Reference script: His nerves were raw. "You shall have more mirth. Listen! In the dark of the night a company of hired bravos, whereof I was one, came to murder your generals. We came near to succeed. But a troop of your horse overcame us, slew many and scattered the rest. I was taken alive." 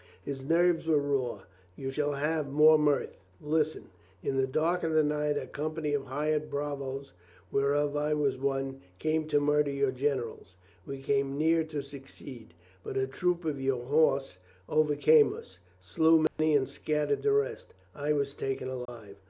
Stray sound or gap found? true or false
true